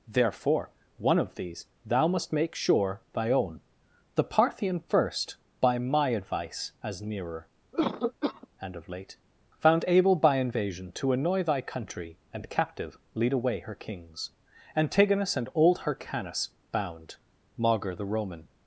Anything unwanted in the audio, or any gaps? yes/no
yes